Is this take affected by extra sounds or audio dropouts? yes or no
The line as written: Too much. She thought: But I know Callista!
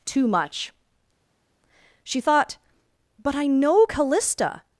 no